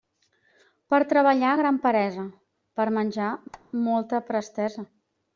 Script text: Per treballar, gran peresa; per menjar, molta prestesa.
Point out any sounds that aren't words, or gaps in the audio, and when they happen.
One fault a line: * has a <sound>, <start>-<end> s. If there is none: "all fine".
* has a squeak, 3.5-3.7 s